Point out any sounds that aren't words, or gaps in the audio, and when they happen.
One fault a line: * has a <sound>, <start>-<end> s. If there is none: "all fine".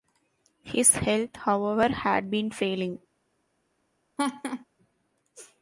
* has a laugh, 4.2-4.7 s